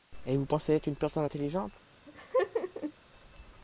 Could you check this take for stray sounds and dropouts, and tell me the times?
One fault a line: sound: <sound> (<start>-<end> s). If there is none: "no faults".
sound: laugh (2.1-2.9 s)